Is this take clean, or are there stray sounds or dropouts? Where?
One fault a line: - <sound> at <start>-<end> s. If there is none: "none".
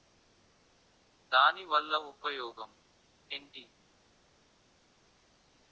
none